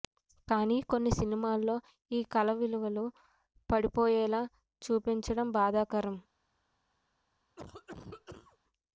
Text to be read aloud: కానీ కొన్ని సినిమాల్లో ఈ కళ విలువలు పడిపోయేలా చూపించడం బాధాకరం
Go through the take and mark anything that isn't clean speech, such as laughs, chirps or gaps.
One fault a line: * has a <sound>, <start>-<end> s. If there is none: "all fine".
* has a cough, 7.6-8.6 s